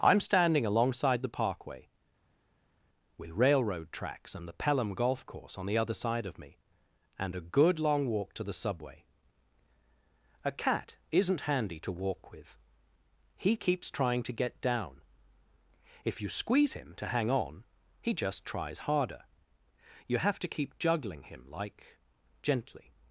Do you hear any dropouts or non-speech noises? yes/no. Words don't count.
no